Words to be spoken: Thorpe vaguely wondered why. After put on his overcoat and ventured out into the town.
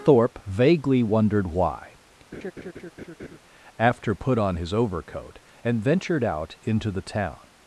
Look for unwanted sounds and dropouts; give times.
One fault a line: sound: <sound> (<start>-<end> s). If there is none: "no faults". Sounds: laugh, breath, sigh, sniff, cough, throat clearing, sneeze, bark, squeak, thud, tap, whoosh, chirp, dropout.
sound: laugh (2.3-3.4 s)